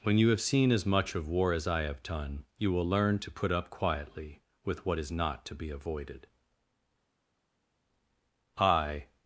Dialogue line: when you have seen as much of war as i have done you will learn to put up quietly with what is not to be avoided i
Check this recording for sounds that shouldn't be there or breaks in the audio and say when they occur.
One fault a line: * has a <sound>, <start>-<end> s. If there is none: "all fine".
all fine